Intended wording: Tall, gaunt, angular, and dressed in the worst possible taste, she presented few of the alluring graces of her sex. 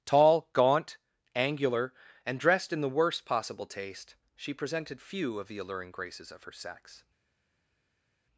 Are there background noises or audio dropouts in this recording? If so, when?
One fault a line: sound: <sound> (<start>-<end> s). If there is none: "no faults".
no faults